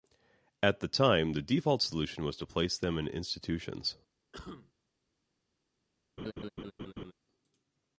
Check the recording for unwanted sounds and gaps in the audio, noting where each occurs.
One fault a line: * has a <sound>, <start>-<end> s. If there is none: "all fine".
* has a cough, 4.3-4.7 s
* has a laugh, 6.2-7.1 s